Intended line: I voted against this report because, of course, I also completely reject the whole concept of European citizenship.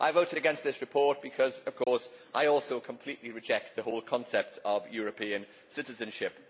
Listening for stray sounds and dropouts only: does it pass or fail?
fail